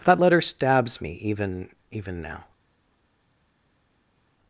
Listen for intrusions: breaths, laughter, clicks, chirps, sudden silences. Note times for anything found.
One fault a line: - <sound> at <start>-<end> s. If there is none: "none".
none